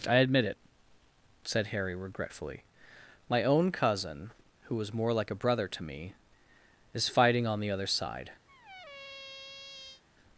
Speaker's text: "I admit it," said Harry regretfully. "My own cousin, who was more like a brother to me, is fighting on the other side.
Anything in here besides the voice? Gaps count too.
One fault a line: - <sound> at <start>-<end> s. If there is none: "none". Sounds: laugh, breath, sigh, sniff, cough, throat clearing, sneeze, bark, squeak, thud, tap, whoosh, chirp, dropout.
- squeak at 8.5-10.0 s